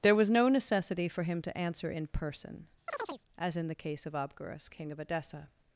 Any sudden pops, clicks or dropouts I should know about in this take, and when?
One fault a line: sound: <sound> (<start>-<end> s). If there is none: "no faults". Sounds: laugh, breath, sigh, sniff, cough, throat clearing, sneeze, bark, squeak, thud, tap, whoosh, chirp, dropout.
sound: chirp (2.9-3.2 s)